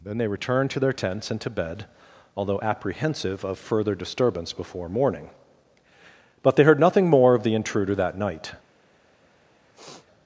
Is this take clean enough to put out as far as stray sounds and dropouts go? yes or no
no